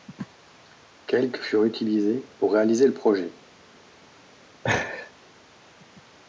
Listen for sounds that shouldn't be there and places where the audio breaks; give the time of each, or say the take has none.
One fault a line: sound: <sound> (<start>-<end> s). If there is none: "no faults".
sound: laugh (4.6-5.1 s)